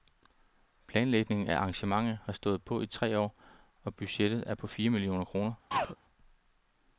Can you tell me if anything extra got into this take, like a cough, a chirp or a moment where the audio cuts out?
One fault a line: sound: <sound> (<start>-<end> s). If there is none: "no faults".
sound: throat clearing (5.7-6.0 s)